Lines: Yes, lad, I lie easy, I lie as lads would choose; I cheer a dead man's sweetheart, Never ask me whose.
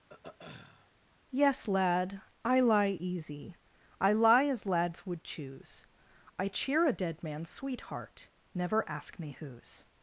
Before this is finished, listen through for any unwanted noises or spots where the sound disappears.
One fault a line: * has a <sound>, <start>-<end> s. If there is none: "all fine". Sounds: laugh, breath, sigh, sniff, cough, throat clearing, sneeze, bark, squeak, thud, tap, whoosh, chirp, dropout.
* has a throat clearing, 0.1-0.9 s